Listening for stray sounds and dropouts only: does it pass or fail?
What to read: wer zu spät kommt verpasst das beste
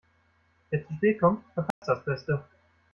fail